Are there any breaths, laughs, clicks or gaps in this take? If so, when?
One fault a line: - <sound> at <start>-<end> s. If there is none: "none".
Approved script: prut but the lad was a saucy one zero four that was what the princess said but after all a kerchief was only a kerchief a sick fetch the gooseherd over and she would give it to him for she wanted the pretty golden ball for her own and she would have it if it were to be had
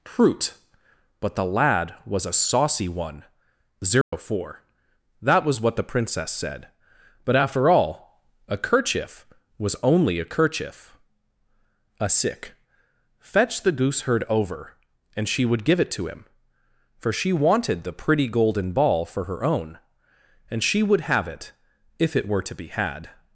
- dropout at 4.0-4.1 s